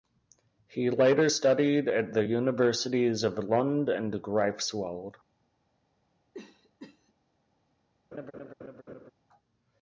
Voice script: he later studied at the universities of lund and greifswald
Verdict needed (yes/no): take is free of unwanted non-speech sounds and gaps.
no